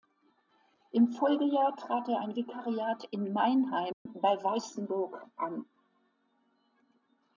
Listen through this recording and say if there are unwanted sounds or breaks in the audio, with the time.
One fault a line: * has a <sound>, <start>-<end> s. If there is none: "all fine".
* has a dropout, 3.9-4.1 s